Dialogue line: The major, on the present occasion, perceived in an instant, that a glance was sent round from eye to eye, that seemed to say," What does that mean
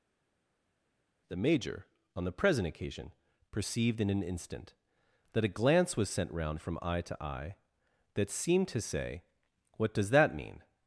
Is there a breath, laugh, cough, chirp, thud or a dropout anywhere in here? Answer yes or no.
no